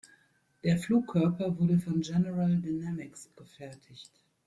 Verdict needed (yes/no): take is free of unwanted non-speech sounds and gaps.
yes